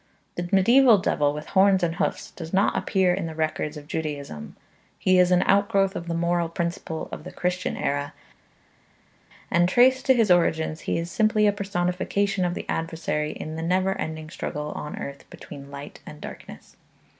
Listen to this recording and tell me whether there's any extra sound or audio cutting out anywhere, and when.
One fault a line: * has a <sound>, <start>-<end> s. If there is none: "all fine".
all fine